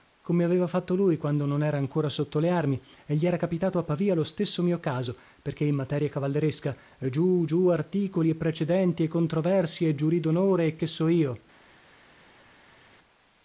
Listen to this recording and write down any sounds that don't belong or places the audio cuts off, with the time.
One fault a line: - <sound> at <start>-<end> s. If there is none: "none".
none